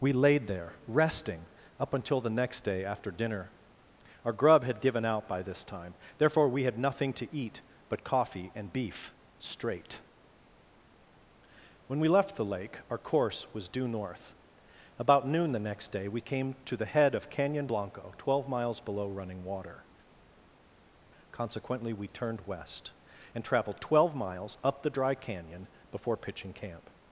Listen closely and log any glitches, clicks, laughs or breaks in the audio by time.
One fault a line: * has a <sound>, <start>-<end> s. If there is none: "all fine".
all fine